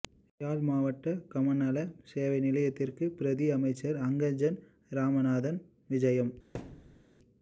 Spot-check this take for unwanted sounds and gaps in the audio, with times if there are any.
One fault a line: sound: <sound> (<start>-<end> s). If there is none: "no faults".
sound: thud (6.5-7.0 s)